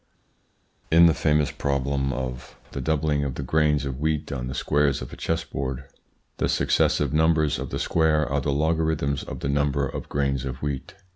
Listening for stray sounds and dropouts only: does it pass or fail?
pass